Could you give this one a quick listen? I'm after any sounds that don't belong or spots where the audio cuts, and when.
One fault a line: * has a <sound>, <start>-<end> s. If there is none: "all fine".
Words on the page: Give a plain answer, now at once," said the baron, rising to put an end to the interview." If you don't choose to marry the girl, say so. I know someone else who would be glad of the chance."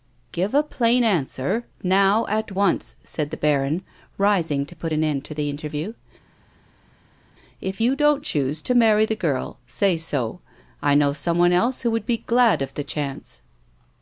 all fine